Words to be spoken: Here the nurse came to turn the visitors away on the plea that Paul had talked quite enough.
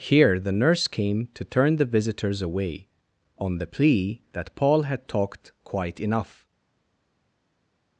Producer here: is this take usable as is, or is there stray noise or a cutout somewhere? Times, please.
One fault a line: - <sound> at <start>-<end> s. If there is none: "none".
none